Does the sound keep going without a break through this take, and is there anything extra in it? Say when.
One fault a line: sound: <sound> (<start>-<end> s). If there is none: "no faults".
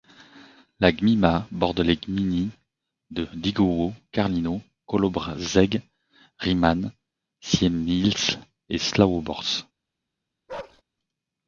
sound: bark (10.5-10.8 s)